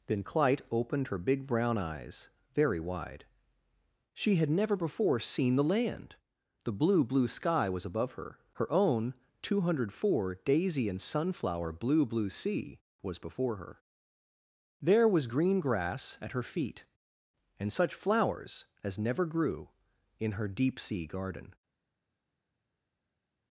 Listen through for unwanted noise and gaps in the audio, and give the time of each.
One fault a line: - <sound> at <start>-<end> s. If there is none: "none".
none